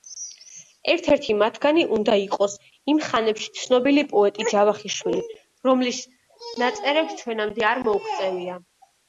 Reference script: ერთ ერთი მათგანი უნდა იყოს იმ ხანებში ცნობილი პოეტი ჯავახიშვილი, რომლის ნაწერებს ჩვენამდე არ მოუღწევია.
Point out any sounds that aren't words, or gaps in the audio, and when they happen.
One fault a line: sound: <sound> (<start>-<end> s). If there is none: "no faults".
no faults